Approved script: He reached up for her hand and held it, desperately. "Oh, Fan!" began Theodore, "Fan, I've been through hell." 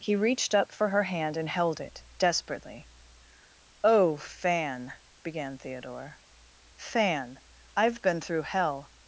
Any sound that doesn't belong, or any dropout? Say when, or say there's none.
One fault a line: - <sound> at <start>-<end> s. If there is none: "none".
none